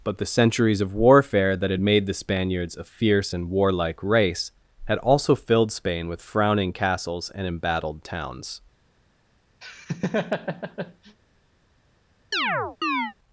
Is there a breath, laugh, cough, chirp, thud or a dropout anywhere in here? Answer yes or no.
yes